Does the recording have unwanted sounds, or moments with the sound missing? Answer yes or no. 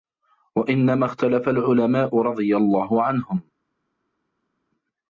no